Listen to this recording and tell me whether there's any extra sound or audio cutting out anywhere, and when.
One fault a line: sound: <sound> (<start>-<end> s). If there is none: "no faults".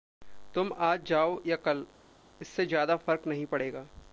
no faults